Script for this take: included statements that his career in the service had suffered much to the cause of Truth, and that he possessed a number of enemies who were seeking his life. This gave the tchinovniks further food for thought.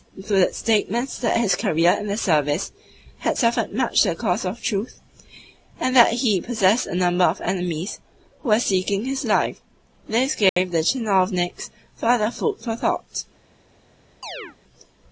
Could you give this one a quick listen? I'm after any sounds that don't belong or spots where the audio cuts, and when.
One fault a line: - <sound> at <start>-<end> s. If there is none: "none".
- dropout at 10.5-10.6 s
- chirp at 14.2-14.6 s